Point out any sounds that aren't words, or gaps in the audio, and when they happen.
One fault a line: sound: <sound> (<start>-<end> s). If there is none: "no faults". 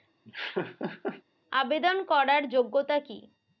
sound: laugh (0.2-1.2 s)